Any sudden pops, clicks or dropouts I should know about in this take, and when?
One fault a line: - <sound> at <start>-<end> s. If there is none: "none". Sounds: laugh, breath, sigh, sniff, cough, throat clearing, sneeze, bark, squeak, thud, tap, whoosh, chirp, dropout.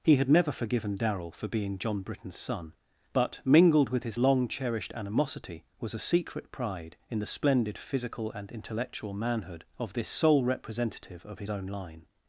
none